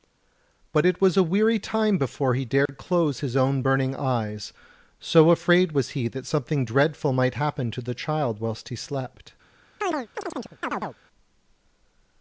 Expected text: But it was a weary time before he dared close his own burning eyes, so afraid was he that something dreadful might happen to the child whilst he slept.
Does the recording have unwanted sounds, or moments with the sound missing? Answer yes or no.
yes